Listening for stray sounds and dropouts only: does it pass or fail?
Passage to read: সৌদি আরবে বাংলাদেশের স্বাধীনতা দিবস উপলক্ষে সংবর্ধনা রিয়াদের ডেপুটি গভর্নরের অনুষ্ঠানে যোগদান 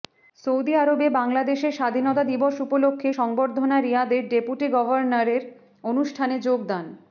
pass